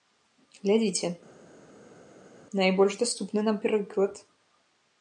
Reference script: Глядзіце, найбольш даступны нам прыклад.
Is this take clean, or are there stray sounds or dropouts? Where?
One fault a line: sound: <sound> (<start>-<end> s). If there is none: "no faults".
no faults